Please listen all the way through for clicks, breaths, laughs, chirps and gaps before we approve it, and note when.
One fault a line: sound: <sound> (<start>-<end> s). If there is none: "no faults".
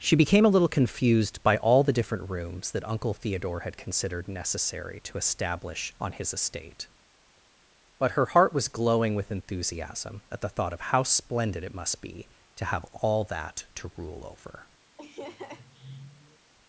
sound: laugh (15.0-16.5 s)